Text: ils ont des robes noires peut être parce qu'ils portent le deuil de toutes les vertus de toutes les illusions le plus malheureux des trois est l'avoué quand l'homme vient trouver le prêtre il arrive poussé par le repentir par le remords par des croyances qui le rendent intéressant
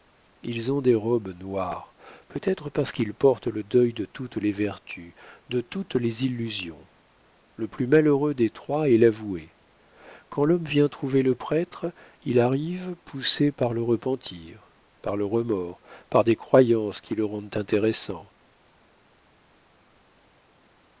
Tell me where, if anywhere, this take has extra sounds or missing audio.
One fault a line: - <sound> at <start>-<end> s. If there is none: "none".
none